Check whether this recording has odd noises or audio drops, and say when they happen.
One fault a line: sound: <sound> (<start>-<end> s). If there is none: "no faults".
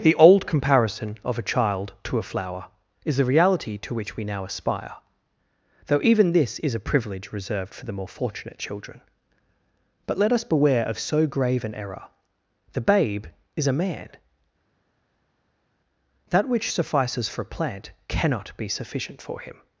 no faults